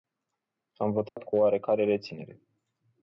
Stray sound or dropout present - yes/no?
yes